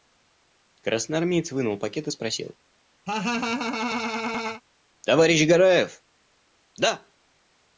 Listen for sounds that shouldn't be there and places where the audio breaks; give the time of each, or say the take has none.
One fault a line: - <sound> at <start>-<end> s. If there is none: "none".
- laugh at 3.1-4.6 s